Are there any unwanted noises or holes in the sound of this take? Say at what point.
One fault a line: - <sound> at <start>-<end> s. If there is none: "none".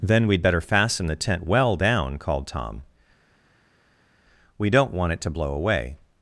none